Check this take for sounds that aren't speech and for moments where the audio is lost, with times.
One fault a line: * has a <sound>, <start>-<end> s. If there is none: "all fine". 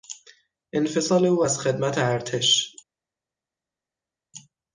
all fine